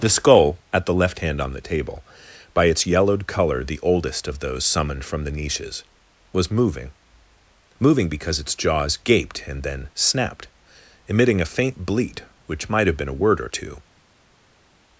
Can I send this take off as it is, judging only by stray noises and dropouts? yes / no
yes